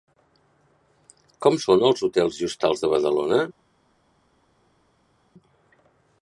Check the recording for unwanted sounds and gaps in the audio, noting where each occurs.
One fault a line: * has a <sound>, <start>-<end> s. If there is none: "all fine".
all fine